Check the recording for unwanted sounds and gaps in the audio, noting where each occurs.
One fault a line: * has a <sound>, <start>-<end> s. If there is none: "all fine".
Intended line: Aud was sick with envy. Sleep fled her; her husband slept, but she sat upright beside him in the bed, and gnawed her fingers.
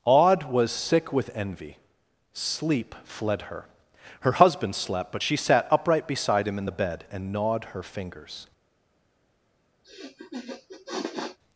* has a sniff, 9.8-11.4 s